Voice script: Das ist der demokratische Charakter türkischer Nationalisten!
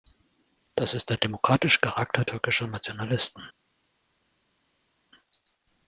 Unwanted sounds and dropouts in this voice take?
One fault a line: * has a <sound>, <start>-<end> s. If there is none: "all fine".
all fine